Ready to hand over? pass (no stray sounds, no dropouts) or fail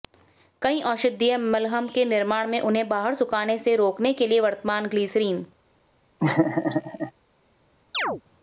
fail